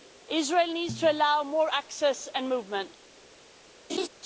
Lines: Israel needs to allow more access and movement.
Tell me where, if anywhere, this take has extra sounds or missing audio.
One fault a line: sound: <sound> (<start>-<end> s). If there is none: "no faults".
sound: laugh (3.9-4.1 s)